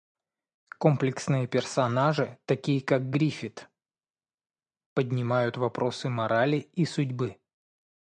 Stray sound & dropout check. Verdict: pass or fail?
pass